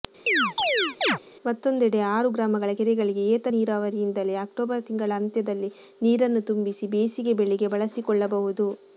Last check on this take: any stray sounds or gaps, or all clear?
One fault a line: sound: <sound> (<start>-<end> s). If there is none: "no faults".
sound: chirp (0.3-1.2 s)